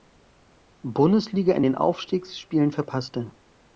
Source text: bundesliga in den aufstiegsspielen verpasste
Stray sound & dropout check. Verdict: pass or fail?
pass